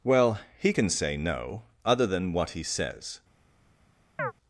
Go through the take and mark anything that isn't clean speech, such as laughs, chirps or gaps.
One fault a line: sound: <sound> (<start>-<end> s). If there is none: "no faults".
sound: chirp (4.2-4.3 s)